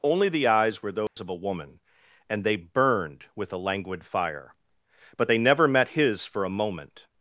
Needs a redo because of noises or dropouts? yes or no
yes